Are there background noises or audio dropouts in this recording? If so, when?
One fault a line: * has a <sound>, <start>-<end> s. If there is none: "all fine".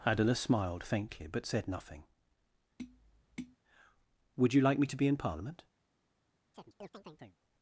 * has a tap, 2.8-3.6 s
* has a chirp, 6.5-7.4 s